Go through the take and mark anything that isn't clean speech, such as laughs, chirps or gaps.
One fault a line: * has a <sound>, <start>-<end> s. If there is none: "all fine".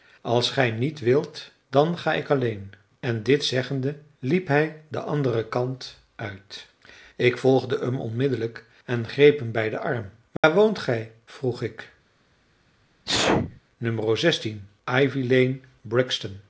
* has a dropout, 10.4-10.4 s
* has a sneeze, 13.1-13.6 s